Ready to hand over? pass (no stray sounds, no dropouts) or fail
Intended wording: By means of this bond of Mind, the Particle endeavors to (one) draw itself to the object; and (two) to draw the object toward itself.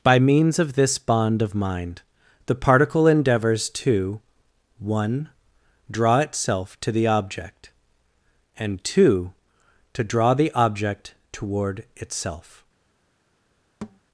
fail